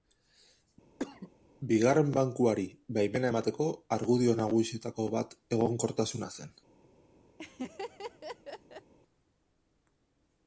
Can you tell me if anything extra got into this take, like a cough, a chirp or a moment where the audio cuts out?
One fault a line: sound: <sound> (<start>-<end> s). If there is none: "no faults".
sound: cough (1.0-1.3 s)
sound: laugh (7.4-8.9 s)